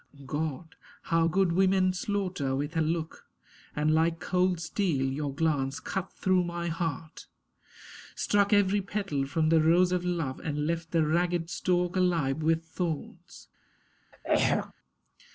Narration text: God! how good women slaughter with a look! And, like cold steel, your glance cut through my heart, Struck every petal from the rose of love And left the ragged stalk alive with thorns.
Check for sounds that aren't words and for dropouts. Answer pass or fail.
fail